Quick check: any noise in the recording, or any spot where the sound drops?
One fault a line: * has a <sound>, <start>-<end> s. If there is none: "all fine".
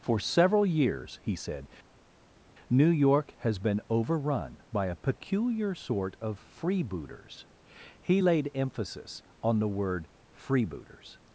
all fine